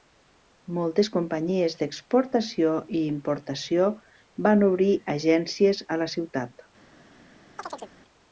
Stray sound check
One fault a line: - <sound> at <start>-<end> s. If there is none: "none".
- chirp at 7.6-7.9 s